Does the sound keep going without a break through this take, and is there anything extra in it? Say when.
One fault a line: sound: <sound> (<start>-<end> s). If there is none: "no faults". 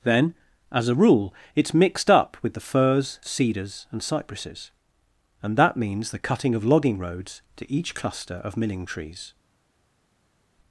no faults